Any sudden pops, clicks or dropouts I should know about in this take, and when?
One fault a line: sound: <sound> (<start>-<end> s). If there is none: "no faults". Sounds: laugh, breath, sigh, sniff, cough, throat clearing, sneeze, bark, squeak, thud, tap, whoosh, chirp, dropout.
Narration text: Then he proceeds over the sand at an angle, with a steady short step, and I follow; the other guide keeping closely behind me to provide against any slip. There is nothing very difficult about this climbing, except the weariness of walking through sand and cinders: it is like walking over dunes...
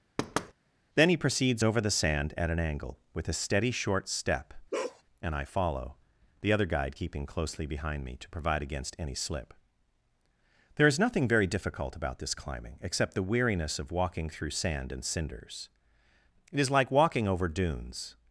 sound: thud (0.2-0.5 s)
sound: bark (4.7-5.0 s)